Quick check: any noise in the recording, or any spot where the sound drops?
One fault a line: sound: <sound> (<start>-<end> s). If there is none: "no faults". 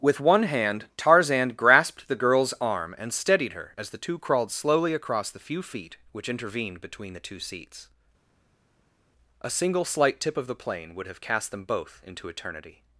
no faults